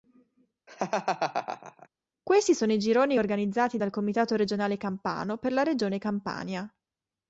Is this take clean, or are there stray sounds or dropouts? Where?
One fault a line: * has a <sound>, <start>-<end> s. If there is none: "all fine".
* has a laugh, 0.7-1.9 s